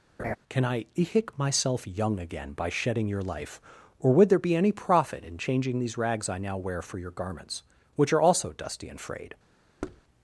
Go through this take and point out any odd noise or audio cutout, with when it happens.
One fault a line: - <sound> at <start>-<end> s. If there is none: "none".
- laugh at 0.2-0.4 s
- thud at 9.8-10.0 s